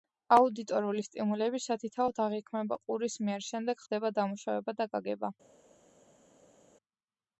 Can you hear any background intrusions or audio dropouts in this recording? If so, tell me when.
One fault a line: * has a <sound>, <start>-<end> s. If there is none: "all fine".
all fine